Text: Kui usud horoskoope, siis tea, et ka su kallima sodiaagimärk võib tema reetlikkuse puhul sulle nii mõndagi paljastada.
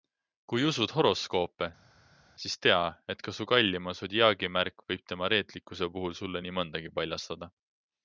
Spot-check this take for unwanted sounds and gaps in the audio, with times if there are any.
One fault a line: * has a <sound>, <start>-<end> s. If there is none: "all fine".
all fine